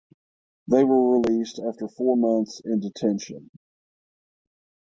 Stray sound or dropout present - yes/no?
no